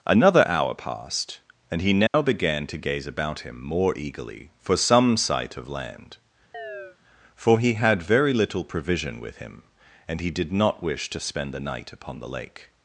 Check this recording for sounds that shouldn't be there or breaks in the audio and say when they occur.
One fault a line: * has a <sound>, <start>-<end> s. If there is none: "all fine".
* has a dropout, 2.1-2.1 s
* has a chirp, 6.5-7.0 s